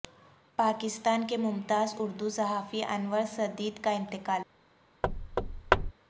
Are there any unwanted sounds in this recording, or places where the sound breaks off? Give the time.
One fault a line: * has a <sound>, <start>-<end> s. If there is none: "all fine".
* has a thud, 5.0-5.9 s